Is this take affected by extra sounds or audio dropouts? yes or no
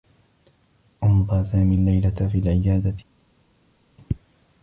no